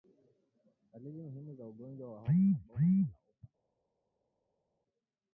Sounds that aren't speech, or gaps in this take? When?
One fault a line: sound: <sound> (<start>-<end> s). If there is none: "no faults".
no faults